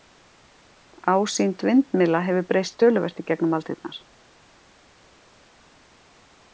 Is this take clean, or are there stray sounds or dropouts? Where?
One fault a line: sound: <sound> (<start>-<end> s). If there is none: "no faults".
no faults